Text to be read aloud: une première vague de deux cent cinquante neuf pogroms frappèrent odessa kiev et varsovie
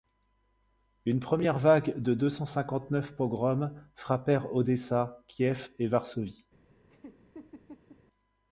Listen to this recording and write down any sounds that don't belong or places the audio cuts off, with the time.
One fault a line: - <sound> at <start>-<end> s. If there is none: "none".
- laugh at 6.9-8.0 s